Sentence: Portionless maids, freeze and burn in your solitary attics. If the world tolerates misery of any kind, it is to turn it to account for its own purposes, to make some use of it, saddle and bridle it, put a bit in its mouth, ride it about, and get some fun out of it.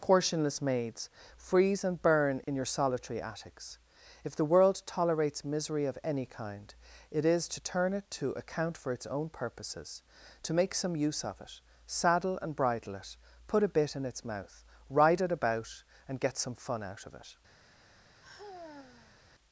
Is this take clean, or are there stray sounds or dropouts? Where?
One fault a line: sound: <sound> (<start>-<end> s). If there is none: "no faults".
sound: dropout (2.4-2.5 s)
sound: sigh (18.2-19.2 s)